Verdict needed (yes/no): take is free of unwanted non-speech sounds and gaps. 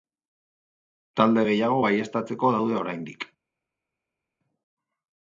yes